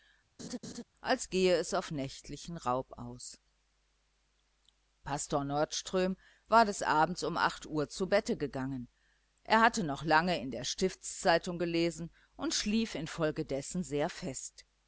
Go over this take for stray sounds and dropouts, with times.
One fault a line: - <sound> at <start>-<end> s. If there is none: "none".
- laugh at 0.4-0.8 s